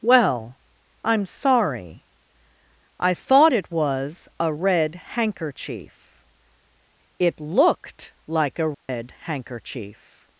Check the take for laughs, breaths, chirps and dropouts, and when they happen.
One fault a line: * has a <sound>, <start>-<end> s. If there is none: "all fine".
* has a dropout, 8.7-8.9 s